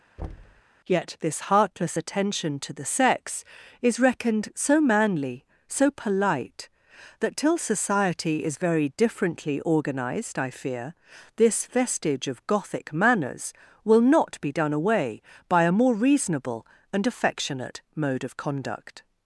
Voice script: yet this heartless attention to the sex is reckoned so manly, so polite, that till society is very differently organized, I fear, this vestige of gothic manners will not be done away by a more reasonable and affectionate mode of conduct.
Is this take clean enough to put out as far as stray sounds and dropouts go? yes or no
no